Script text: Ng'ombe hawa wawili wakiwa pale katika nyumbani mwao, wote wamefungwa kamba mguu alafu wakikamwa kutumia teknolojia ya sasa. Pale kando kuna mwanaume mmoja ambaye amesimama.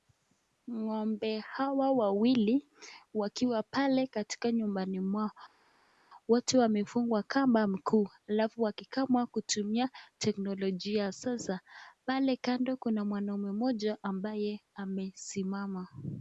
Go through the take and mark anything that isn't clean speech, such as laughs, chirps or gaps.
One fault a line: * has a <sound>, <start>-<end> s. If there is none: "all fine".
all fine